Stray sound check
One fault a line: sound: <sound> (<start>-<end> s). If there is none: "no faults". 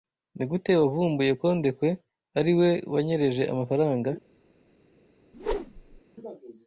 sound: whoosh (5.3-6.0 s)